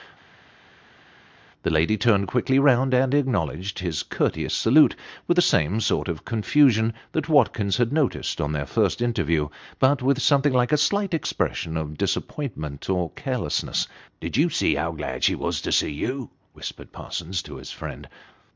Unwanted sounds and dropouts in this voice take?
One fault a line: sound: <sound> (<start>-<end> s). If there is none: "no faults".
no faults